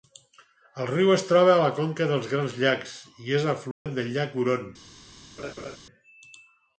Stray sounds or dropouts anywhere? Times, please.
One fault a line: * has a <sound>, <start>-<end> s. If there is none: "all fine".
* has a dropout, 3.7-3.9 s
* has a laugh, 5.4-5.8 s